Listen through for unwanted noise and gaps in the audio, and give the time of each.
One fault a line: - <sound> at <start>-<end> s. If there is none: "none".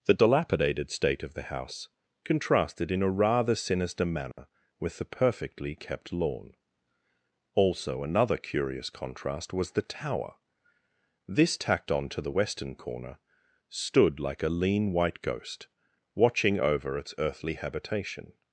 - dropout at 4.3-4.4 s